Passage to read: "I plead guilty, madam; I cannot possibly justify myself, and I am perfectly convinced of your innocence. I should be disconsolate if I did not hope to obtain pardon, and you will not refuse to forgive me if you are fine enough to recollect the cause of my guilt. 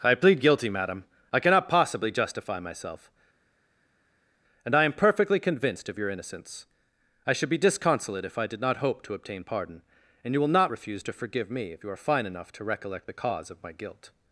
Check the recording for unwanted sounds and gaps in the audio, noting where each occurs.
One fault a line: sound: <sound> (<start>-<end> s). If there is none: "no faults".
no faults